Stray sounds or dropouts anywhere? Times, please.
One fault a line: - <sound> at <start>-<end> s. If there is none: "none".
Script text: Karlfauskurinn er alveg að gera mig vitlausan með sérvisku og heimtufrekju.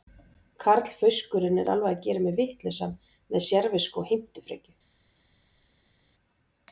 none